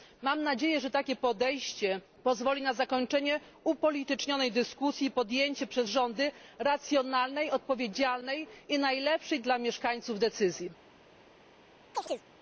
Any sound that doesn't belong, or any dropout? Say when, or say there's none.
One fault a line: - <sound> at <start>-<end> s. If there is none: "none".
- chirp at 11.9-12.2 s